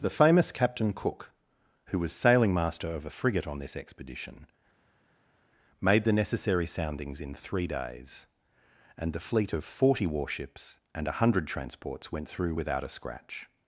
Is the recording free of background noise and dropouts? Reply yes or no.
yes